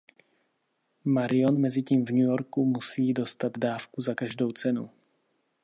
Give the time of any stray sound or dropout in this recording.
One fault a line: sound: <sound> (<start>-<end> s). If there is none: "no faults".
no faults